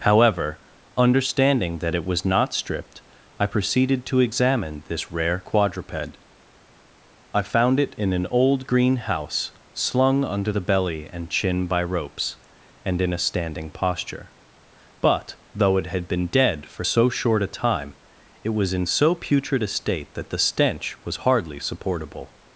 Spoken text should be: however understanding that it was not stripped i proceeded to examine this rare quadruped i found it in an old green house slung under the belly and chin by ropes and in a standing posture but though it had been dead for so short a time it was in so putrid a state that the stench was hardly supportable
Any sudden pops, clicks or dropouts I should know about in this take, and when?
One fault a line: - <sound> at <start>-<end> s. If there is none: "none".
none